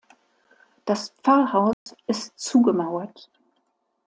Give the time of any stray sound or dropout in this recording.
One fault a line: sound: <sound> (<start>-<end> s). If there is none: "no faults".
sound: dropout (1.7-1.9 s)